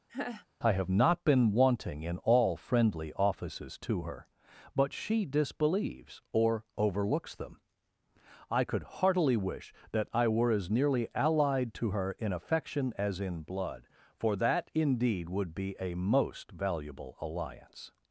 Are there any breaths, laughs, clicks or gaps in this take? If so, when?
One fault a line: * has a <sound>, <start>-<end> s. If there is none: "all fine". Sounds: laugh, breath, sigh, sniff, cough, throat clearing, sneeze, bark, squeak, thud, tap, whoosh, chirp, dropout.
* has a laugh, 0.1-0.5 s